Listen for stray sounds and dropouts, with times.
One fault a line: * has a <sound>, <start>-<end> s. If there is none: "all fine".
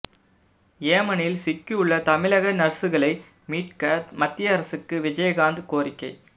all fine